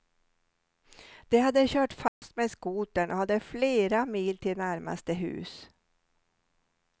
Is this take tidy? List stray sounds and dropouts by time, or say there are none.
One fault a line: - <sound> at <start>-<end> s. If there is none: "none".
- dropout at 2.1-2.2 s